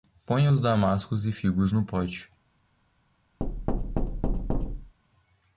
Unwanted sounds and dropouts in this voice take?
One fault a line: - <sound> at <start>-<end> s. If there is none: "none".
- thud at 3.4-4.9 s